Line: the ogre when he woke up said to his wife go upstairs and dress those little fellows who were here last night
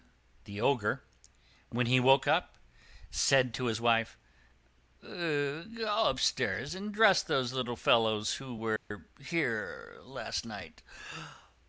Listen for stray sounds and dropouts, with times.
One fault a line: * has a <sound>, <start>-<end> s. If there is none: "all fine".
* has a dropout, 8.8-8.9 s